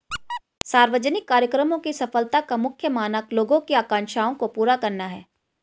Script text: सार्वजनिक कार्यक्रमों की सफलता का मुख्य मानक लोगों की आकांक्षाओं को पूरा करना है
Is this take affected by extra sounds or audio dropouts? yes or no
yes